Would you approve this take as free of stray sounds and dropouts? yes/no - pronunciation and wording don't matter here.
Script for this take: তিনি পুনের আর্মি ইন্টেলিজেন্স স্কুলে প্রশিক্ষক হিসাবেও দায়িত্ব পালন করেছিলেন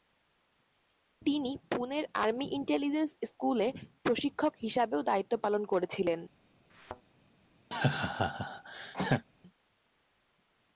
no